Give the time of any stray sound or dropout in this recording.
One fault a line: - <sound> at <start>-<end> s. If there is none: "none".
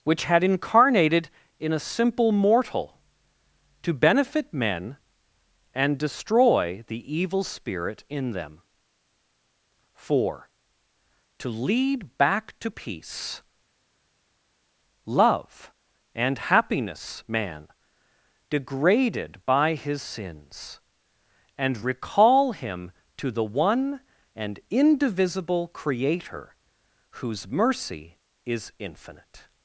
none